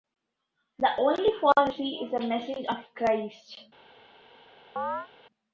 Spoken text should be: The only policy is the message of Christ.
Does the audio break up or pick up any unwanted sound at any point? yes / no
yes